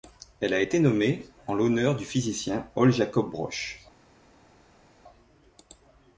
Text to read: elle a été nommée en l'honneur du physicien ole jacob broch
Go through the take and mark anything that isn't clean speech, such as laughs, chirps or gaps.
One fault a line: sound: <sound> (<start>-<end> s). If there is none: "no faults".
no faults